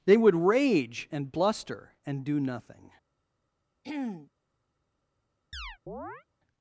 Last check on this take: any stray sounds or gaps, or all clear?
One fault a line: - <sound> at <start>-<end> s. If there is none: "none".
- throat clearing at 3.8-4.3 s
- chirp at 5.5-6.2 s